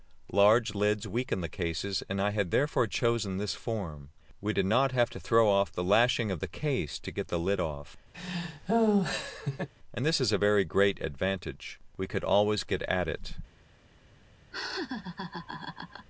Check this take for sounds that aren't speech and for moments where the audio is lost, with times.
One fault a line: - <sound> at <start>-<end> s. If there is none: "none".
- laugh at 8.1-9.7 s
- laugh at 14.5-16.1 s